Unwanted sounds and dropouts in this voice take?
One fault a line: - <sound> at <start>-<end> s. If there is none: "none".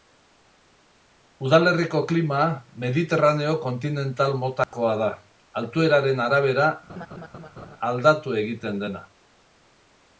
- dropout at 4.6-4.7 s
- laugh at 6.9-7.8 s